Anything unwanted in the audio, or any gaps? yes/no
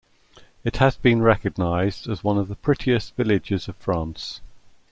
no